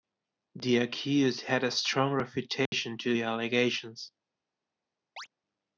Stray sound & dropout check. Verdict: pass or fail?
fail